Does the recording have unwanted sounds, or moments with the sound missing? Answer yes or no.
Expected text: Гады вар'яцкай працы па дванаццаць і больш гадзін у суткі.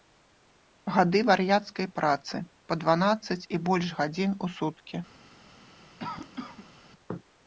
yes